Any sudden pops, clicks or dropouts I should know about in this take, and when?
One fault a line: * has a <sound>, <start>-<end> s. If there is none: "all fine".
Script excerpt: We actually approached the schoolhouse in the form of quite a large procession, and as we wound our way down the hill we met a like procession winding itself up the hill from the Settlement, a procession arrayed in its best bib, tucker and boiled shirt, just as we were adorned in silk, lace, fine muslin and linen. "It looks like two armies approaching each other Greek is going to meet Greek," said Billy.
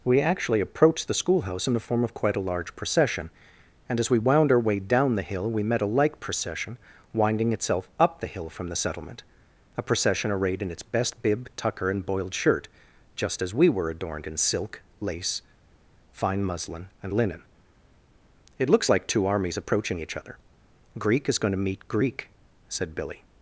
all fine